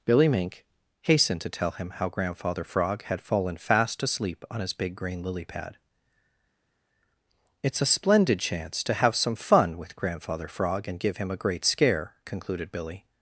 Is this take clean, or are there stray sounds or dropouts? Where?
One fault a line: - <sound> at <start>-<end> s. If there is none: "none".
none